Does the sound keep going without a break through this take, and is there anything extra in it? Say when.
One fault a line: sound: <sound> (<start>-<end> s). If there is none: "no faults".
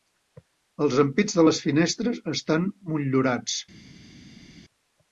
no faults